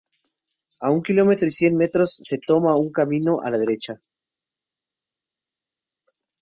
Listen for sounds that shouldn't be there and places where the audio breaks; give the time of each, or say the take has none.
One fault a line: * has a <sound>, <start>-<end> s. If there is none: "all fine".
all fine